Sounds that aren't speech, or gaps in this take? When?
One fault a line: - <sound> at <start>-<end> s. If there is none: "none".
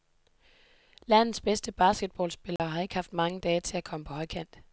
- dropout at 2.6-2.6 s